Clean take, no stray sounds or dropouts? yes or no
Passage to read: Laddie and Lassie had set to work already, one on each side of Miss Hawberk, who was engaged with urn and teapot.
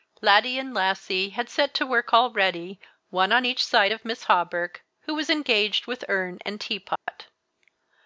no